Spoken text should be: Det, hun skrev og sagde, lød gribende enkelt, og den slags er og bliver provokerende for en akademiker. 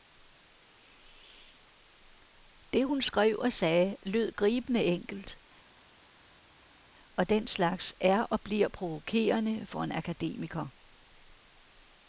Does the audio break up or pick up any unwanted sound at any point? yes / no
no